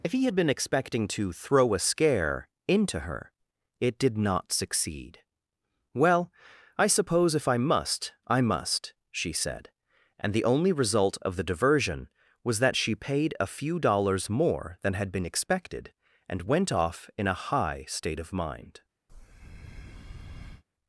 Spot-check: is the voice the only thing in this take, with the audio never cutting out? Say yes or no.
no